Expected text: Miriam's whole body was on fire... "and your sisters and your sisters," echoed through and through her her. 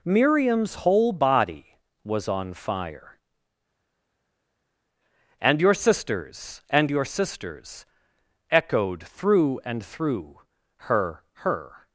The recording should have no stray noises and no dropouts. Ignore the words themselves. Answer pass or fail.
pass